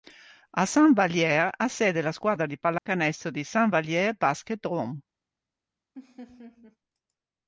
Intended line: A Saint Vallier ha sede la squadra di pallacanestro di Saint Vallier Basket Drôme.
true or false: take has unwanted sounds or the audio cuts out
true